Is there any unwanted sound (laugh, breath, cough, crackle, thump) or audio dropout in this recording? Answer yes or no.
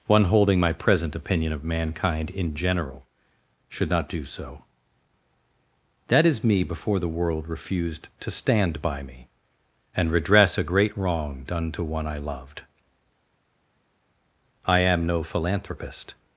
no